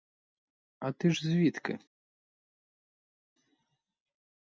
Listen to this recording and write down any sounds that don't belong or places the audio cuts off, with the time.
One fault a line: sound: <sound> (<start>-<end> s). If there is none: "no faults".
no faults